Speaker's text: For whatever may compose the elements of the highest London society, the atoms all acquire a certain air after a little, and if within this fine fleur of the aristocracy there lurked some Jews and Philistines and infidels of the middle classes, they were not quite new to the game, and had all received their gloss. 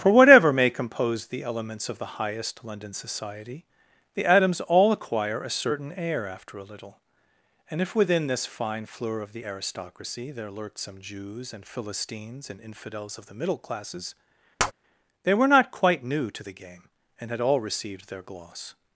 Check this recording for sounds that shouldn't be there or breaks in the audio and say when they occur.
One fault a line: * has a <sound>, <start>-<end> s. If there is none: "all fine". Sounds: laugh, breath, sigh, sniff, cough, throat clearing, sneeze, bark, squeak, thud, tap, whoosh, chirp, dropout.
* has a tap, 14.6-14.7 s